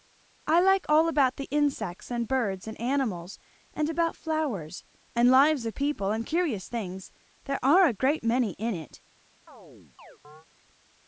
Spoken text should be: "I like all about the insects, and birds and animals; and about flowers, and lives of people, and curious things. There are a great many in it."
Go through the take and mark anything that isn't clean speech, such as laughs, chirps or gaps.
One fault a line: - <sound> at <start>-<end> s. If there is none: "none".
- chirp at 9.5-10.5 s